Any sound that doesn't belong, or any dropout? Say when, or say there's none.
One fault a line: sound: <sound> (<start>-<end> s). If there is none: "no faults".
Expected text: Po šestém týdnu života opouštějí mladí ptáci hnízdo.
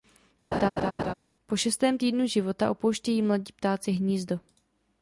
sound: laugh (0.5-1.1 s)